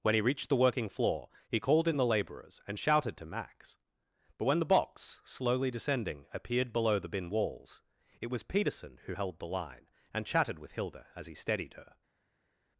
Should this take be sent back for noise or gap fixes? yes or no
no